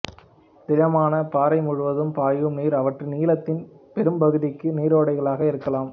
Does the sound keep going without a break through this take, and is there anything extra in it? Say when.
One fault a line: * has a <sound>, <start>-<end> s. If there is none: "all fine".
all fine